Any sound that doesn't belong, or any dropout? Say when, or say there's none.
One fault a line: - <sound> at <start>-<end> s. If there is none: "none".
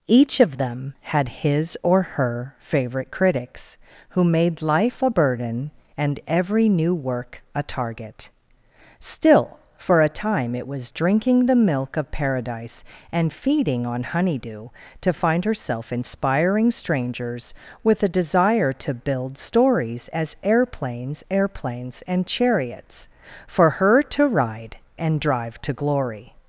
none